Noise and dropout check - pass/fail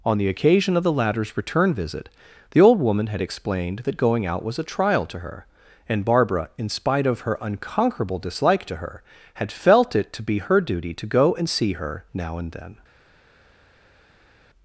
pass